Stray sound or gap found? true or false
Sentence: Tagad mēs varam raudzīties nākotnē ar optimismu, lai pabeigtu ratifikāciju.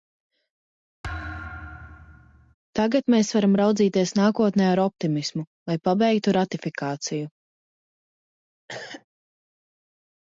true